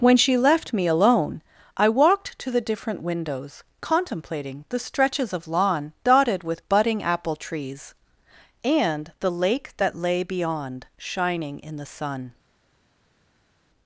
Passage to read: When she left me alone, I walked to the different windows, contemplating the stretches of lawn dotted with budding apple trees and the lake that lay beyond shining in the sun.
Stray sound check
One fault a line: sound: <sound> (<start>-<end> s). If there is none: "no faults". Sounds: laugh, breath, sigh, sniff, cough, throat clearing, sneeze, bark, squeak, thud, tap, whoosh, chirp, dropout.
no faults